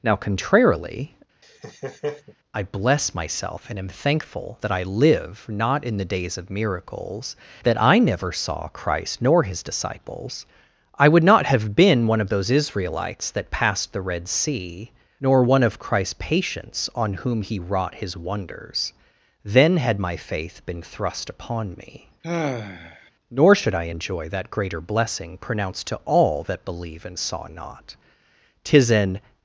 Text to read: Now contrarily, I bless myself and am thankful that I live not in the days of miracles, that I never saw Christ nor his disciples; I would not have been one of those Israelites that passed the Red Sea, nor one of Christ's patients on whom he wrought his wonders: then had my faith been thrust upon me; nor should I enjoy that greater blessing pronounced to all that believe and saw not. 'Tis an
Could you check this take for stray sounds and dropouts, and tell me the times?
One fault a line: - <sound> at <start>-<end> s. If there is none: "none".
- laugh at 1.4-2.4 s
- sigh at 22.2-23.1 s